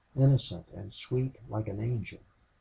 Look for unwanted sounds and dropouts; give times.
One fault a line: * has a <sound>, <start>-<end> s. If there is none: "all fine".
all fine